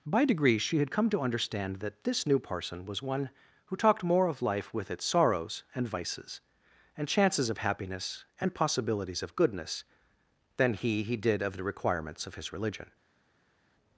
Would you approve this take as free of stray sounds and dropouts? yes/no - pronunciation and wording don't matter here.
yes